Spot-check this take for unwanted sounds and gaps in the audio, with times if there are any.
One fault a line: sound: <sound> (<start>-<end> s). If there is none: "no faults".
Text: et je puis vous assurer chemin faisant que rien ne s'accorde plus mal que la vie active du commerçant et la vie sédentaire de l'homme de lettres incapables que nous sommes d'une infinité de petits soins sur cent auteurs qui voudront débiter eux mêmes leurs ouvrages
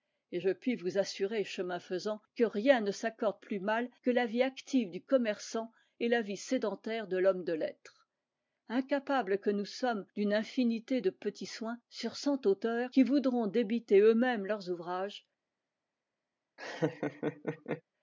sound: laugh (16.6-17.8 s)